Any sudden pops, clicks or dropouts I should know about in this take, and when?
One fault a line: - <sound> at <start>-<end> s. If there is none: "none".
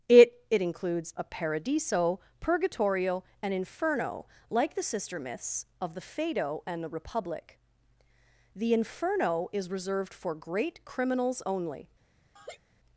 - laugh at 12.4-12.6 s